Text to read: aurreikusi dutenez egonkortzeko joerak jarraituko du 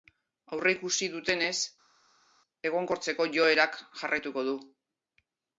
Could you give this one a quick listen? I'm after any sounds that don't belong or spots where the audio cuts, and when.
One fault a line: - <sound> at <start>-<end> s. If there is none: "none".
none